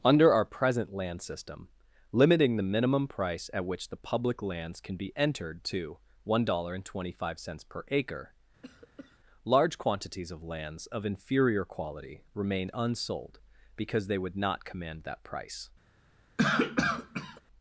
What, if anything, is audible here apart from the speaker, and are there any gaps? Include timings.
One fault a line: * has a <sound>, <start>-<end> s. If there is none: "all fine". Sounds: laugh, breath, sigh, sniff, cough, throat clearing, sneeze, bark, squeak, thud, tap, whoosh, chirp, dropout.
* has a cough, 8.6-9.2 s
* has a cough, 16.4-17.4 s